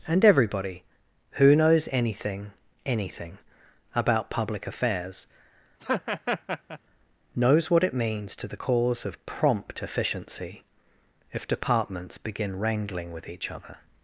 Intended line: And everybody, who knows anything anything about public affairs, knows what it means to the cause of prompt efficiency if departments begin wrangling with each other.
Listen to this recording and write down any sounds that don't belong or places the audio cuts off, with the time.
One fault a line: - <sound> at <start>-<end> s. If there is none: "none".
- laugh at 5.8-6.8 s